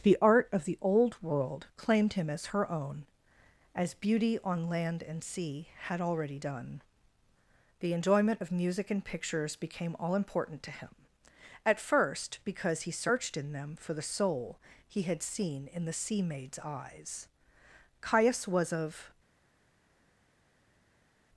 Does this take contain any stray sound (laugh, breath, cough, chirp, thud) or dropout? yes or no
no